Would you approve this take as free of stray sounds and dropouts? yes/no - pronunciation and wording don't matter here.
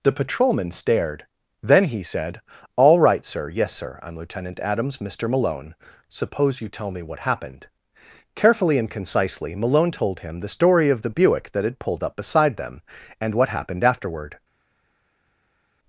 yes